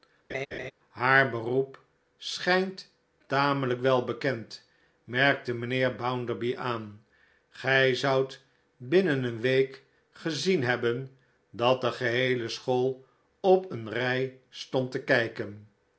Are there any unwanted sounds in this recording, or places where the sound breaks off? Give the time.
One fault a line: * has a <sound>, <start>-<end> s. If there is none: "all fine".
* has a laugh, 0.3-0.7 s